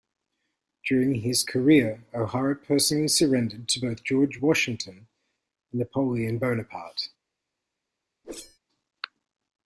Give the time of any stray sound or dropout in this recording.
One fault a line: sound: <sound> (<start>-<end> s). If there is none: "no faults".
sound: whoosh (8.2-8.6 s)